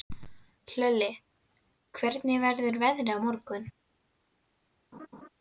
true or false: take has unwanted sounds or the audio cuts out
true